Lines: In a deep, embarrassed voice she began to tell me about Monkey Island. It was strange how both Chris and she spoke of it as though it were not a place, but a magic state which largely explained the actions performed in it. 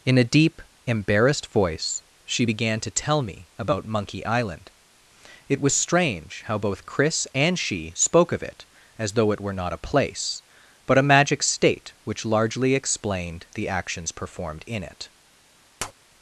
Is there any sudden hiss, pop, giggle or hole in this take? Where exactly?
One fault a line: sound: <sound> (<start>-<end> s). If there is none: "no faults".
sound: tap (15.8-15.9 s)